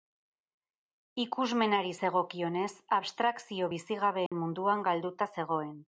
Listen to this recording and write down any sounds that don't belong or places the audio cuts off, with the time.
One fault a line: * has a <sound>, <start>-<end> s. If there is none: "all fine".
* has a dropout, 4.3-4.3 s